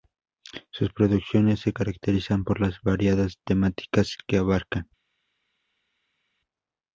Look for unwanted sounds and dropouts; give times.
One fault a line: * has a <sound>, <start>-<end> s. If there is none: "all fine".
all fine